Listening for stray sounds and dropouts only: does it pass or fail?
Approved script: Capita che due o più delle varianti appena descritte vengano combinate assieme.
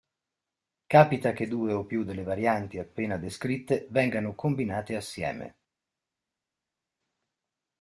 pass